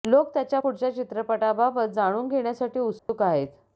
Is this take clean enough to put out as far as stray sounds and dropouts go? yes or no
no